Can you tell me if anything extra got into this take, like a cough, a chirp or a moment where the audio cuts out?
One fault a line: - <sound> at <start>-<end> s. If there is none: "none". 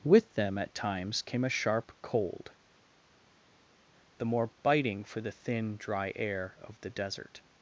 none